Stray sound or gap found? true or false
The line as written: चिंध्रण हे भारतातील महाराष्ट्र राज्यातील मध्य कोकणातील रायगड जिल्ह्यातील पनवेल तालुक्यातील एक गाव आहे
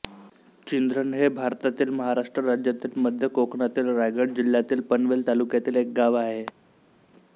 false